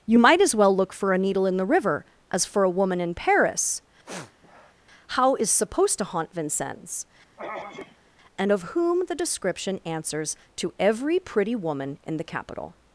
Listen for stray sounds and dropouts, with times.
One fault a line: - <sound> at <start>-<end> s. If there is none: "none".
- sniff at 4.0-4.7 s
- throat clearing at 7.4-8.1 s